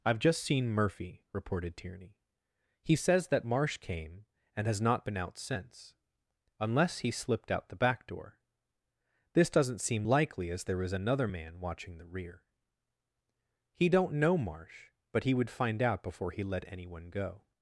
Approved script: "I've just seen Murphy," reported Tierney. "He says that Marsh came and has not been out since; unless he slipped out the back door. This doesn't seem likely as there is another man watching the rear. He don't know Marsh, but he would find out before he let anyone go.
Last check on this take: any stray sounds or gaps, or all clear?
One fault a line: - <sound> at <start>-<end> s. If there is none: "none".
none